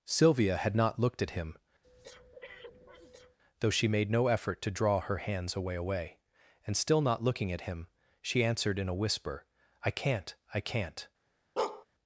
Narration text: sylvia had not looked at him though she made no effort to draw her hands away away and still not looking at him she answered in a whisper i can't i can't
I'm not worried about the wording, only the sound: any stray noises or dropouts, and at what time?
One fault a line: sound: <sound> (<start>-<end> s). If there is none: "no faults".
sound: breath (1.8-3.4 s)
sound: bark (11.6-11.9 s)